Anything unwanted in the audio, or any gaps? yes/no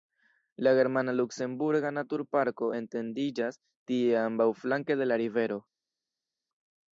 no